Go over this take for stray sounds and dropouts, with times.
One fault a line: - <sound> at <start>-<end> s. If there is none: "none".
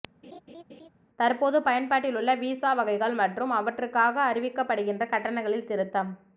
- laugh at 0.2-0.9 s